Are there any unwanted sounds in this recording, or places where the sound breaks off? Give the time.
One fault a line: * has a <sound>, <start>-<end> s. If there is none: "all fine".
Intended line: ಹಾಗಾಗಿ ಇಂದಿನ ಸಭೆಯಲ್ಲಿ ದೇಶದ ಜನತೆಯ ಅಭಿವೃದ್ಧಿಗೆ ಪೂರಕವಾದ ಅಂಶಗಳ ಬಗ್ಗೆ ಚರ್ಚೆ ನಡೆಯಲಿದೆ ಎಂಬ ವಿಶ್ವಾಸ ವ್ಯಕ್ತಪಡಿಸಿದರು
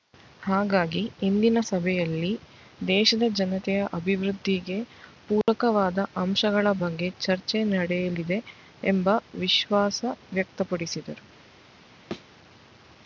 * has a dropout, 5.4-5.5 s
* has a thud, 12.1-12.3 s